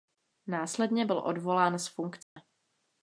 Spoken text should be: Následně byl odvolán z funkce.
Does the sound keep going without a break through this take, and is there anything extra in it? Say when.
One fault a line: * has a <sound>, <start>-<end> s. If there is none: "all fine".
* has a dropout, 2.2-2.4 s